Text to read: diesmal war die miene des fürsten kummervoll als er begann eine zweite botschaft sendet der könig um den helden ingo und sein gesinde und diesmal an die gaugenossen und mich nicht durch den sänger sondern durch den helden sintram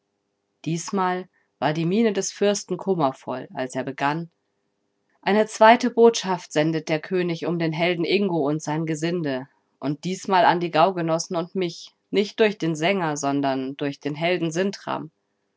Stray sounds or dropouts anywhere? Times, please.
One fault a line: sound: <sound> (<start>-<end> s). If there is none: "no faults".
no faults